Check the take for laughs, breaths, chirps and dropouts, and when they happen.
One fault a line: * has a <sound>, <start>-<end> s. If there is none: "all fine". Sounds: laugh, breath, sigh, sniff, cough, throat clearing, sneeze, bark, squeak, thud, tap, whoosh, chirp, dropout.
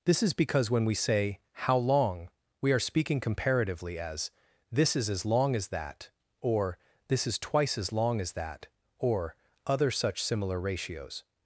all fine